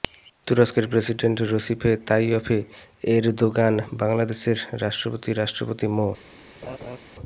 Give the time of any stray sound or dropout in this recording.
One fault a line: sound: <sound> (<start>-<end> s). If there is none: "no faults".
sound: laugh (6.6-7.0 s)